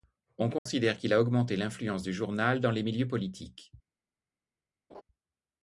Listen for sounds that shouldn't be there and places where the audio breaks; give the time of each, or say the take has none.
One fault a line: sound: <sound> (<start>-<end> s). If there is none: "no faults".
sound: dropout (0.6-0.7 s)
sound: laugh (4.9-5.0 s)